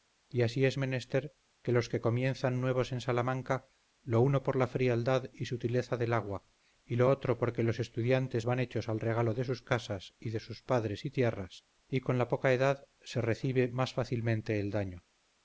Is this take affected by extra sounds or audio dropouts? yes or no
no